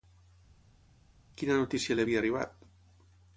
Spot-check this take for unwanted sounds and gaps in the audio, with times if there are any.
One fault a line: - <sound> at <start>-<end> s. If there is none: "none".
none